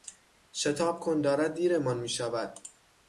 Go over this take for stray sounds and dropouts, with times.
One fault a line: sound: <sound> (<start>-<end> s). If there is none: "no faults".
no faults